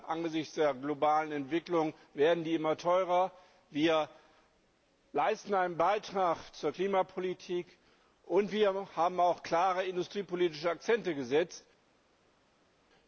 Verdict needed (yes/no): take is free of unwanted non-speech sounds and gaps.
yes